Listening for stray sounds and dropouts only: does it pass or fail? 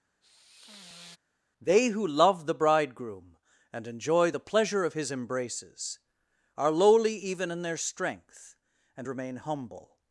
fail